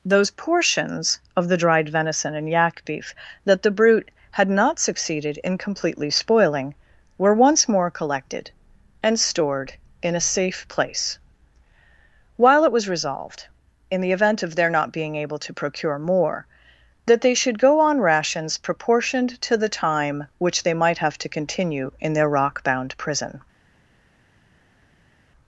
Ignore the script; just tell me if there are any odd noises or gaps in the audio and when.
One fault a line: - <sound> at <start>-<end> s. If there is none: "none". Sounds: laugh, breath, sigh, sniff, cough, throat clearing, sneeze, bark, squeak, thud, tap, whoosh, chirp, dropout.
none